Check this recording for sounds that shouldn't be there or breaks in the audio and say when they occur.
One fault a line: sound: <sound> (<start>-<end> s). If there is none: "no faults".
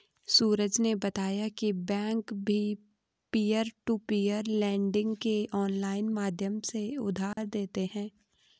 sound: dropout (7.3-7.4 s)